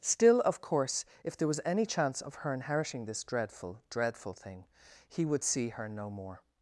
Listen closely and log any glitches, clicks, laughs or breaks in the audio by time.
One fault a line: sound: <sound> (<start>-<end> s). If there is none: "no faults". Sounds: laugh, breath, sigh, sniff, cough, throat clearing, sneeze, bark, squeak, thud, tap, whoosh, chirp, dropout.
no faults